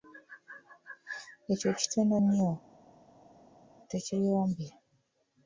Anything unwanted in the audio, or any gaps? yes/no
no